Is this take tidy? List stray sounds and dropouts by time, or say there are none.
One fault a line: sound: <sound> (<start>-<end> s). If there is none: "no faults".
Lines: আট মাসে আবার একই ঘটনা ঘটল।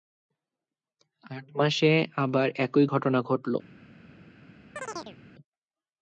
sound: chirp (4.8-5.2 s)